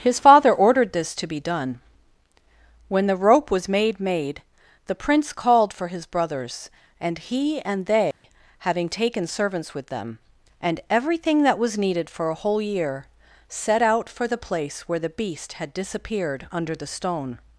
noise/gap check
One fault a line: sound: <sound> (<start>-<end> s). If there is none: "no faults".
sound: dropout (8.1-8.2 s)